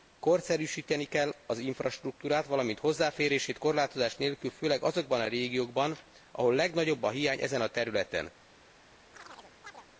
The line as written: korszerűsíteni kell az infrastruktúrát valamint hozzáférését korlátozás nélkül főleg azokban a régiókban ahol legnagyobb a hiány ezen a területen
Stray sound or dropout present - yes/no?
yes